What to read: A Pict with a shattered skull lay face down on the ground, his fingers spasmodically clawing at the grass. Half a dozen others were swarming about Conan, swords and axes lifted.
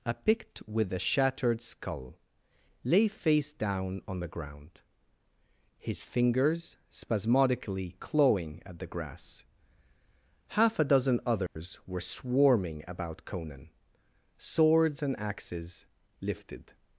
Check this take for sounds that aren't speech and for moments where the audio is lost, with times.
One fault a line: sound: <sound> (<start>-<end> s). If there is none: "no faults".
sound: dropout (11.5-11.6 s)